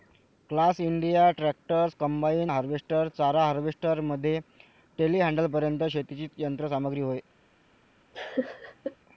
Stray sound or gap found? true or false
true